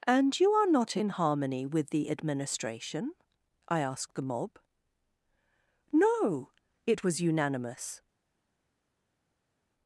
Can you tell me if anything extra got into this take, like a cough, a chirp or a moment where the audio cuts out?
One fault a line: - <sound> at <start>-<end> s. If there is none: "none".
none